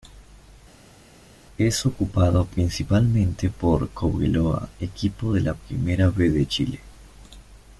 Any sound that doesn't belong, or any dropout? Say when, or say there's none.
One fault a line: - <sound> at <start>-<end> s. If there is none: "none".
none